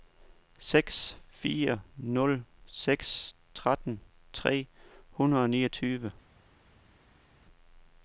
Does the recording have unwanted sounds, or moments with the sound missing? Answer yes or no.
no